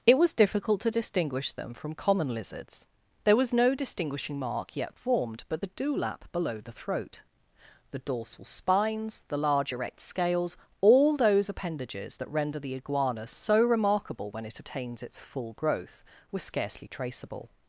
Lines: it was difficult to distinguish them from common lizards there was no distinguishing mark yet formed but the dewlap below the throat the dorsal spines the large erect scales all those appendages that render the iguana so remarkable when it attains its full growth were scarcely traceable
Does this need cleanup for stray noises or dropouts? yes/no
no